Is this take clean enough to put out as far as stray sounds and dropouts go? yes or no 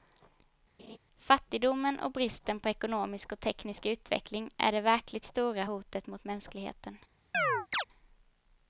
no